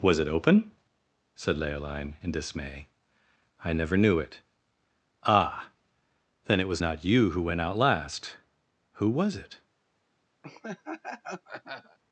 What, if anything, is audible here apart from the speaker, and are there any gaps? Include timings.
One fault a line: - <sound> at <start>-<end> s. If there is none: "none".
- laugh at 10.4-12.0 s